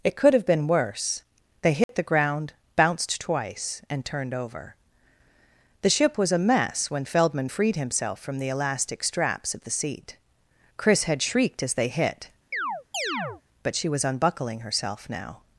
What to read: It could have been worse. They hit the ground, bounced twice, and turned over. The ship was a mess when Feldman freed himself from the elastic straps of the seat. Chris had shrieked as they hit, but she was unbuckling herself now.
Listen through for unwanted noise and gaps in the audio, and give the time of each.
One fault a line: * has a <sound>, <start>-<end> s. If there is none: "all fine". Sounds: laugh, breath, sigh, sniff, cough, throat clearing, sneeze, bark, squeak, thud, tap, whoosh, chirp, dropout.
* has a dropout, 1.8-1.9 s
* has a chirp, 12.5-13.4 s